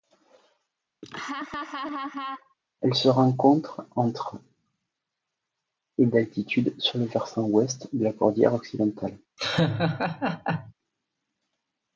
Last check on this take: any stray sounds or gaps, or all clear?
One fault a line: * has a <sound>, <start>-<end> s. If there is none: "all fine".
* has a laugh, 1.0-2.5 s
* has a laugh, 9.4-10.7 s